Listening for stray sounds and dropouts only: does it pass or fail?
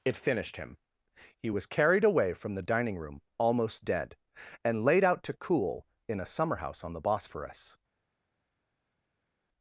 pass